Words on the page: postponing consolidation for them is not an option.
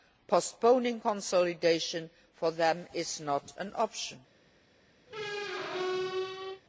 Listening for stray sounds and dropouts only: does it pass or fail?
fail